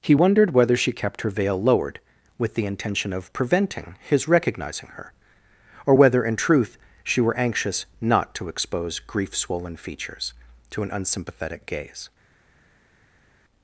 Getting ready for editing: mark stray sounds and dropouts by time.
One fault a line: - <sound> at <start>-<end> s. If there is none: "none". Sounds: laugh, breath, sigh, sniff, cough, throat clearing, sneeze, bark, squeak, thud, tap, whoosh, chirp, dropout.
none